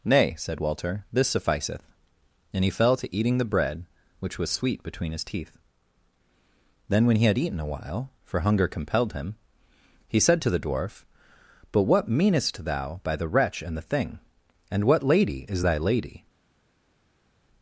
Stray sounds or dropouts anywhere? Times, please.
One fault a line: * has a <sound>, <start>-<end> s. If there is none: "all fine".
all fine